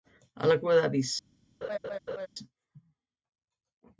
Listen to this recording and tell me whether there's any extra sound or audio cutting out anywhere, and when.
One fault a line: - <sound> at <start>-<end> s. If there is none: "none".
- laugh at 1.6-2.3 s